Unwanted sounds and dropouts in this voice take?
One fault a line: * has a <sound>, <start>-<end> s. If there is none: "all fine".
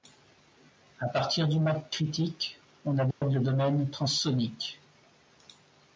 * has a dropout, 3.1-3.2 s